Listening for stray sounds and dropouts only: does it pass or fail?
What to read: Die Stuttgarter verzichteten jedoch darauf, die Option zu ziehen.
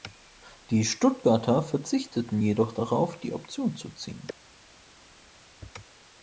pass